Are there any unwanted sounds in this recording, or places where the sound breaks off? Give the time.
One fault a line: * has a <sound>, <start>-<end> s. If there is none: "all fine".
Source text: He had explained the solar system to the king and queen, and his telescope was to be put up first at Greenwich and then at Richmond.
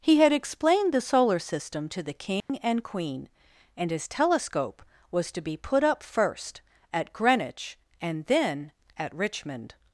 * has a dropout, 2.4-2.5 s